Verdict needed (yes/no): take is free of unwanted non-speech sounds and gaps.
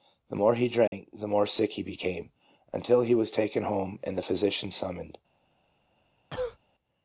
no